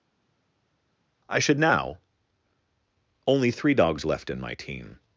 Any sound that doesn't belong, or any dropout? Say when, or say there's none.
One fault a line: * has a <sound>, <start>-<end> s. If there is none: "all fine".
all fine